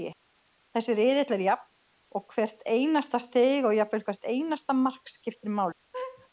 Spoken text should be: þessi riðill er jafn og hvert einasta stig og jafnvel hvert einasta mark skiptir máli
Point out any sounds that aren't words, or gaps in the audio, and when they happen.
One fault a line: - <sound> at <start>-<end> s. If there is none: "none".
- laugh at 5.9-6.3 s